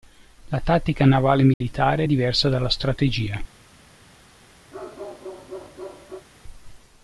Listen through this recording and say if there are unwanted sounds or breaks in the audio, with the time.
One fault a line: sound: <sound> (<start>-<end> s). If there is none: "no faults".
sound: dropout (1.5-1.6 s)
sound: bark (4.7-6.3 s)